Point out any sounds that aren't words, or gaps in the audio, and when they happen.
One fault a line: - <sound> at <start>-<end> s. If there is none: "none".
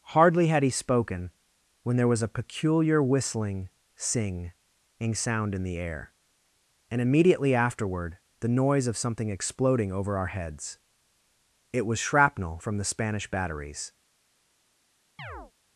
- chirp at 15.2-15.5 s